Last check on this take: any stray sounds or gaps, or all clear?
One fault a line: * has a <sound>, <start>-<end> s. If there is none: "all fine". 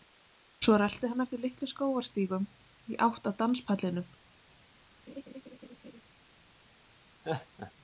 * has a laugh, 5.1-6.0 s
* has a laugh, 7.2-7.7 s